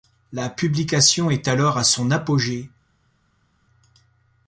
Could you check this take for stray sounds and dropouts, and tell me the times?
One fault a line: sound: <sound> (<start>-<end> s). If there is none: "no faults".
no faults